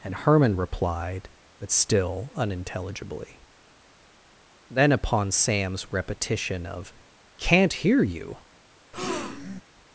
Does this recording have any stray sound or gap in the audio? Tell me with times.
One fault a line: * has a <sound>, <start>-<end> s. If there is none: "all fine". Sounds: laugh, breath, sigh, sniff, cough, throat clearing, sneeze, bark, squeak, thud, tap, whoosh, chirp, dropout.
* has a breath, 8.9-9.6 s